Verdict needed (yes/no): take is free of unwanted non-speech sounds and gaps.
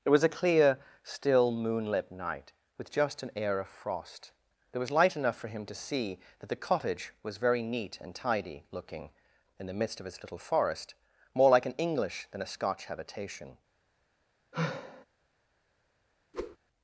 no